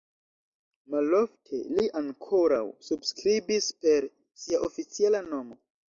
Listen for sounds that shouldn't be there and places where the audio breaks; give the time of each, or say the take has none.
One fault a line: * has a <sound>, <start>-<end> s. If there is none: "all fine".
all fine